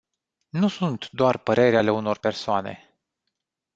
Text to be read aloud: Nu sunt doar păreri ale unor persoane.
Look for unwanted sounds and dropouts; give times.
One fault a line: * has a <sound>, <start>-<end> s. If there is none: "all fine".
all fine